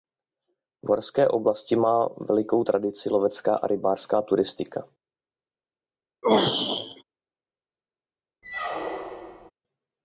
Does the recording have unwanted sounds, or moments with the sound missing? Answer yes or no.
yes